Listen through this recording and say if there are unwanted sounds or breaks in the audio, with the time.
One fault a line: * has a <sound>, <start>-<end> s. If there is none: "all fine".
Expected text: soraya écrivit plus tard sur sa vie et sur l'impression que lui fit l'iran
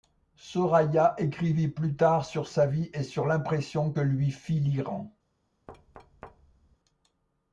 * has a thud, 5.7-6.8 s